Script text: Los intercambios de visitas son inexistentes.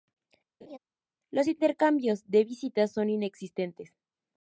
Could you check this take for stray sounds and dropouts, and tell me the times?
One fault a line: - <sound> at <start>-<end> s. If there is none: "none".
- laugh at 0.6-0.8 s